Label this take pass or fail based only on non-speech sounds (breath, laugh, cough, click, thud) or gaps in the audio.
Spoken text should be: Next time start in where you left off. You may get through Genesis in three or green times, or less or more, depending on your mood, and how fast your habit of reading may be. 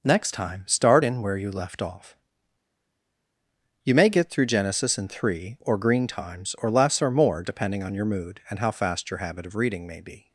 pass